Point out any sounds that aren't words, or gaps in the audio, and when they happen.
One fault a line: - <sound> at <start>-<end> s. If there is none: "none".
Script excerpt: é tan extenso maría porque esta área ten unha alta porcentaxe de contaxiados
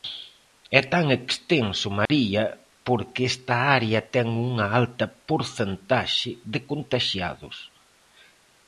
- dropout at 2.1-2.1 s